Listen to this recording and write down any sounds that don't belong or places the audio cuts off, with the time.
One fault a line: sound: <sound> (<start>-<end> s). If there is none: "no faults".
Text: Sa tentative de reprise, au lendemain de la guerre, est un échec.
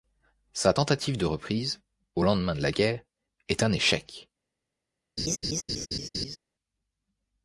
sound: laugh (5.2-6.4 s)